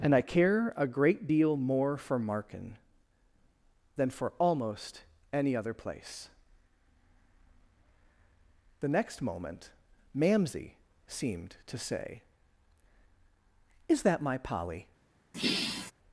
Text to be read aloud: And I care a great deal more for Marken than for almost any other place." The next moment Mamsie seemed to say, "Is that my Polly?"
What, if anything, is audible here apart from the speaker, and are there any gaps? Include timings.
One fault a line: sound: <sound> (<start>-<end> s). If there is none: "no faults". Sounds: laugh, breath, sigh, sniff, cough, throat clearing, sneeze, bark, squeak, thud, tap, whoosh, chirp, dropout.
sound: sigh (15.3-15.9 s)